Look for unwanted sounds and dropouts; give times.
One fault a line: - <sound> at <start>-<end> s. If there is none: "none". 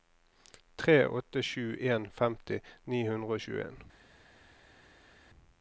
none